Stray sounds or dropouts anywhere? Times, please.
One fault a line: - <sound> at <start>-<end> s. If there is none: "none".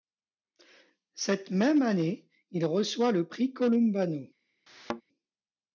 - thud at 4.7-5.0 s